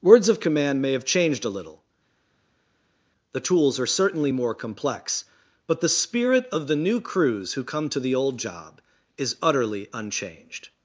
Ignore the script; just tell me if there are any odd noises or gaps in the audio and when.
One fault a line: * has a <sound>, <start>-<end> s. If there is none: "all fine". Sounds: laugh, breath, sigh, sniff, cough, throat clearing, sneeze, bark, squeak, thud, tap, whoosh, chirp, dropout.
all fine